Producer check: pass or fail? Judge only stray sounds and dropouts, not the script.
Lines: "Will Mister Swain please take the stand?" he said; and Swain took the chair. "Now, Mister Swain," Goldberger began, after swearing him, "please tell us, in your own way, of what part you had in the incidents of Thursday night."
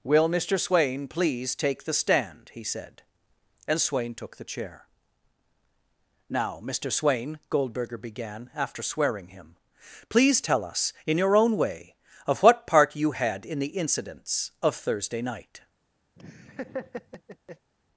fail